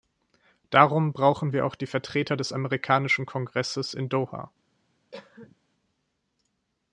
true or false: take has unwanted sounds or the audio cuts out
true